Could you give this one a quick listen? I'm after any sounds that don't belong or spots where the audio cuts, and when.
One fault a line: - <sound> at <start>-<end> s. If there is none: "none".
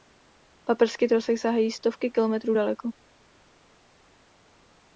none